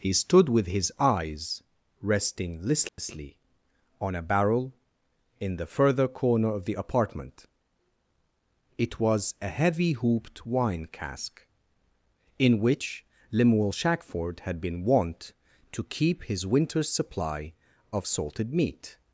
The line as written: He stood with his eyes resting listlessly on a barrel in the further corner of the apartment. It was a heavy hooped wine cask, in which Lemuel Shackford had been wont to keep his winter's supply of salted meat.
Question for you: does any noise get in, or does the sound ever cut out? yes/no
yes